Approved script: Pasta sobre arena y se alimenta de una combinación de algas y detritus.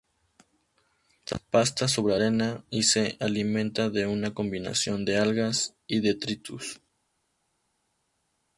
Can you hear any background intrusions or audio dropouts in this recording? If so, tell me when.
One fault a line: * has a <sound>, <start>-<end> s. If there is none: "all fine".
all fine